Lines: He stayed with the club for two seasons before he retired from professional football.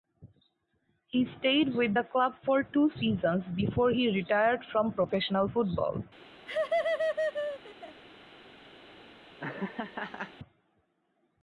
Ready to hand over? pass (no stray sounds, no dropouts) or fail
fail